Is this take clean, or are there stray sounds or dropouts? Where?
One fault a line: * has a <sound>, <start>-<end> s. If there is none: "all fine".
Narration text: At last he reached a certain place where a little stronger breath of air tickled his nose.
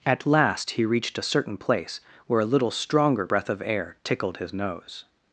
all fine